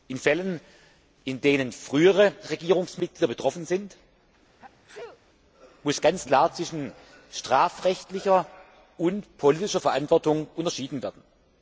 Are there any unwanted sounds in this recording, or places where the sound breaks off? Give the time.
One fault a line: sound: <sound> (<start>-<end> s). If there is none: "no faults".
sound: sneeze (4.6-5.2 s)